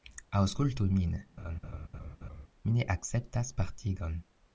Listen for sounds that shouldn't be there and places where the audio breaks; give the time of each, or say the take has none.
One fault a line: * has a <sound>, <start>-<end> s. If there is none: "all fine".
* has a laugh, 1.4-2.5 s